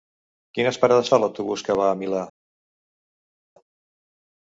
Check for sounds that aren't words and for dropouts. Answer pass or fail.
pass